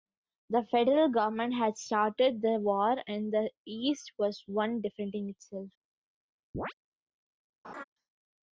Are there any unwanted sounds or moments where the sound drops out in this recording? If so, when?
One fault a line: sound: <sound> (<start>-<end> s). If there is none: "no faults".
sound: chirp (6.5-6.7 s)
sound: laugh (7.6-7.8 s)